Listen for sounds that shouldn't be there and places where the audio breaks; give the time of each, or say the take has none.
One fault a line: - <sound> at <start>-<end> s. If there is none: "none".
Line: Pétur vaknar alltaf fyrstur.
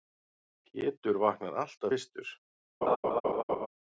- laugh at 2.8-3.7 s